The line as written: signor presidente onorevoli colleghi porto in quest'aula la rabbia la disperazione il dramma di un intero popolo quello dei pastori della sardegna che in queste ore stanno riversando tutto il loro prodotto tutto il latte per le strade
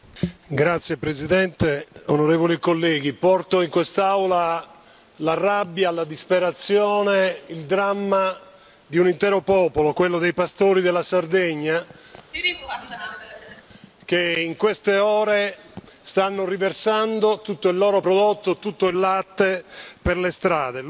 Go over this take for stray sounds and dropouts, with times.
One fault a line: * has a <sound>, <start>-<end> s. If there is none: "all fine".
* has a laugh, 12.3-13.6 s